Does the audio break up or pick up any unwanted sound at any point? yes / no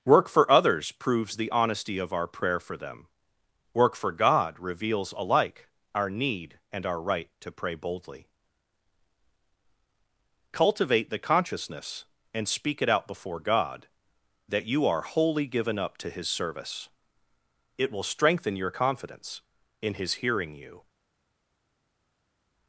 no